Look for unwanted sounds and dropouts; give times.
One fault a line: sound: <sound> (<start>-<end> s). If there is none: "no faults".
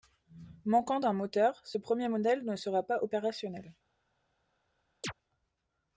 sound: chirp (5.0-5.1 s)